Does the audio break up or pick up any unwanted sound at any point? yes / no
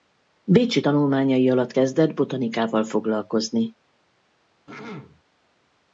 yes